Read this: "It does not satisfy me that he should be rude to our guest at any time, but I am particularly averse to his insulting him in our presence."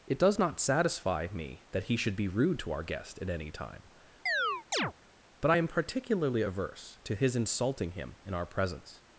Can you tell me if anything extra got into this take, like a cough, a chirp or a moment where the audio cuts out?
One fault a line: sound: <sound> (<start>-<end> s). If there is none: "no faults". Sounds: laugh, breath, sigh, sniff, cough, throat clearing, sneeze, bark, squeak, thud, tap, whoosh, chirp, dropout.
sound: chirp (4.3-4.9 s)